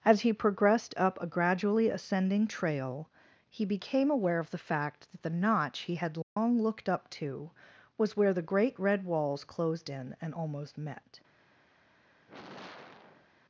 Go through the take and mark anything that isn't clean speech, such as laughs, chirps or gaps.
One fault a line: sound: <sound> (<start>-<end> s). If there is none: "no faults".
sound: dropout (6.2-6.4 s)
sound: sigh (12.2-13.3 s)